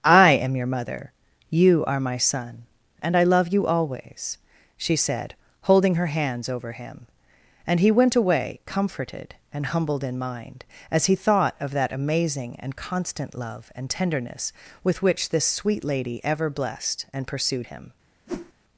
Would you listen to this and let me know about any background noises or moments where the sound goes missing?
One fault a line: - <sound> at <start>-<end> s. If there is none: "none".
- whoosh at 18.3-18.5 s